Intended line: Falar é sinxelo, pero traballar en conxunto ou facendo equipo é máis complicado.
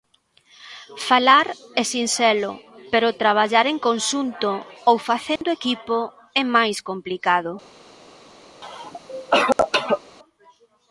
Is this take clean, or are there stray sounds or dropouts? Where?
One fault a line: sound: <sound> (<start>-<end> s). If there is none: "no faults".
sound: dropout (5.4-5.4 s)
sound: cough (8.6-10.0 s)